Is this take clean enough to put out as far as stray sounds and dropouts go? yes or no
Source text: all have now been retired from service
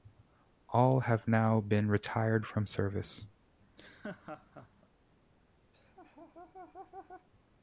no